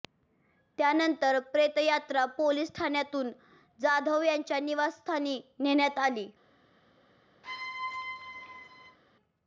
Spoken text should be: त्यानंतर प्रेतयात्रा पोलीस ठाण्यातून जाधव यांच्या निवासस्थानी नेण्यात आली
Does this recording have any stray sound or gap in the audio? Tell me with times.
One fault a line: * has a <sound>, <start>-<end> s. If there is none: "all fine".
* has a squeak, 7.4-9.0 s